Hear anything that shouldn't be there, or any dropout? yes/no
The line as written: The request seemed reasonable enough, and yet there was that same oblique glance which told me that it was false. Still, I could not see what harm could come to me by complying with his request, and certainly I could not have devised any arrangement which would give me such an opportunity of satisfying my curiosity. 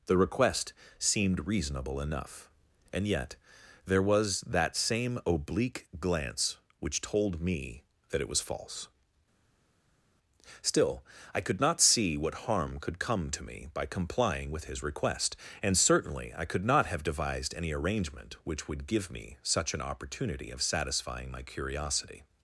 no